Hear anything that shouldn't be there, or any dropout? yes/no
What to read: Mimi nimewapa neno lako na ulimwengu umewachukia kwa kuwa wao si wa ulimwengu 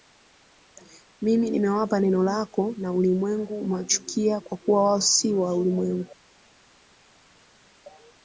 no